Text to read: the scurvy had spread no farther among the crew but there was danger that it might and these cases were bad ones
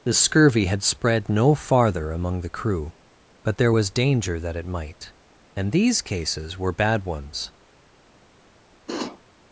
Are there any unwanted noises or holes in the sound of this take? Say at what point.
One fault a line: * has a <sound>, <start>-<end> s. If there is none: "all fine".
* has a sniff, 8.9-9.2 s